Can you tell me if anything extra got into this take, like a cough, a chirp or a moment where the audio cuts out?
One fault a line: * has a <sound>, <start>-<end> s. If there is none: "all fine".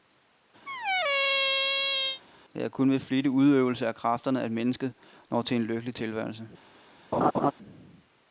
* has a squeak, 0.7-2.2 s
* has a laugh, 7.1-7.5 s